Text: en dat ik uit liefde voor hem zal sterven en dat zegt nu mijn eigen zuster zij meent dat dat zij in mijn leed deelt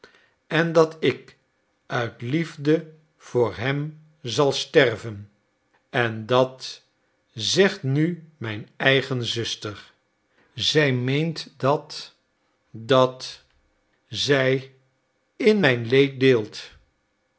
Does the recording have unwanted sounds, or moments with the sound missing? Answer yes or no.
no